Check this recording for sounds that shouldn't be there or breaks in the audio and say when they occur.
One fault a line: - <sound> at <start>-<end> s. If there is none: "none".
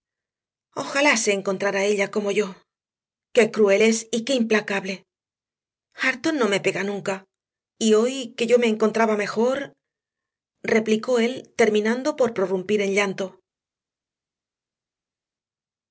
none